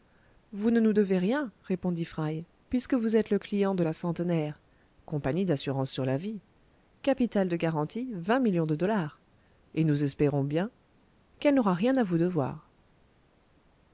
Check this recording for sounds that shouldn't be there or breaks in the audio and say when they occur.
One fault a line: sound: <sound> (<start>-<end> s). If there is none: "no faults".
no faults